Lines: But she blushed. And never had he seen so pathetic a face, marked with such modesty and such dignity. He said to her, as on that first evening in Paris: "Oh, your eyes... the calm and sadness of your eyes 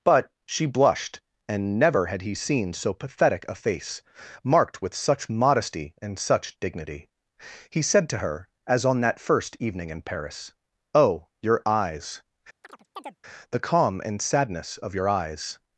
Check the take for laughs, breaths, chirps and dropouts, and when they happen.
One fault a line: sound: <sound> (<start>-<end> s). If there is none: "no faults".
sound: chirp (12.6-13.2 s)